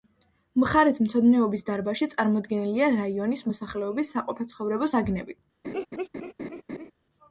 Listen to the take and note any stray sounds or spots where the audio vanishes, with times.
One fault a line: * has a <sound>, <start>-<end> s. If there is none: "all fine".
* has a laugh, 5.6-6.9 s